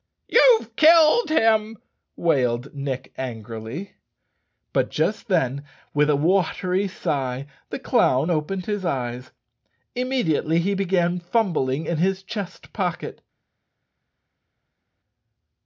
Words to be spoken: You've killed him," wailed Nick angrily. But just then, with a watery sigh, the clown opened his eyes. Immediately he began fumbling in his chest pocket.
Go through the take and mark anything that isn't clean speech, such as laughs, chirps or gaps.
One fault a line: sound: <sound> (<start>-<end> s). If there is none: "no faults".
no faults